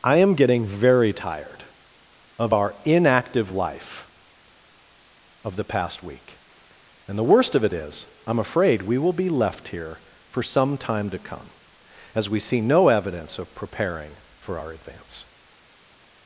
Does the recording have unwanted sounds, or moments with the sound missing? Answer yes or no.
no